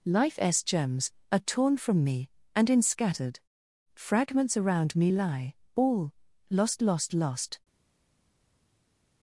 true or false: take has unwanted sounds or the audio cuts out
false